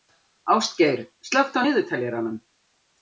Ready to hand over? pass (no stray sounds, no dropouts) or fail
pass